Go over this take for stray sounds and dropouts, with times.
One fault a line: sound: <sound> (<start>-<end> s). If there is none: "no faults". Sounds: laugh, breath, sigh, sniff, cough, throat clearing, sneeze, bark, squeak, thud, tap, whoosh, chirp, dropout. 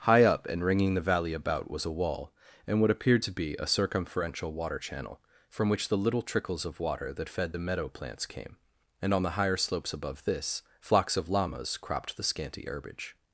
no faults